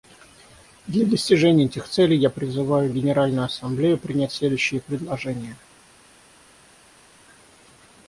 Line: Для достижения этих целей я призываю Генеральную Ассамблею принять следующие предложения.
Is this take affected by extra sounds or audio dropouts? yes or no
no